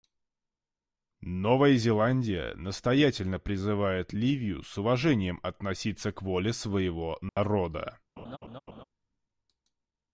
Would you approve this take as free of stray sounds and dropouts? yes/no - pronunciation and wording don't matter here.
no